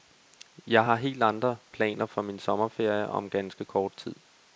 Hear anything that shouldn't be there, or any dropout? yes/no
no